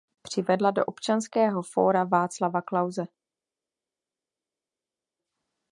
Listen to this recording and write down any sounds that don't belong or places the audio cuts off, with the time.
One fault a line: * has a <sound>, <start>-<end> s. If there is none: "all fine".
all fine